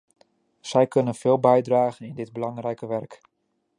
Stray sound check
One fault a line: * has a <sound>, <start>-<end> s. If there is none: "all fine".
all fine